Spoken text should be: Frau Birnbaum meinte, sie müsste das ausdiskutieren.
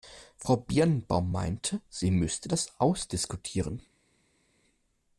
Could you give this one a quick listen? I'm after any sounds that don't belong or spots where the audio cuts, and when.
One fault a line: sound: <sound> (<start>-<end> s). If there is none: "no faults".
no faults